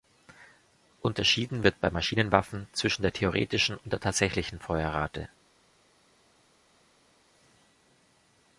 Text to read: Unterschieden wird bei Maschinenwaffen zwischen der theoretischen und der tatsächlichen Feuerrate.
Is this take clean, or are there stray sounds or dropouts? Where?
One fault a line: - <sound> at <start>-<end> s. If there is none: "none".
none